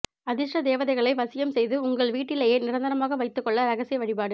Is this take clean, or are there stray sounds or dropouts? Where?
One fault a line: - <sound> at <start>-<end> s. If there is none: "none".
none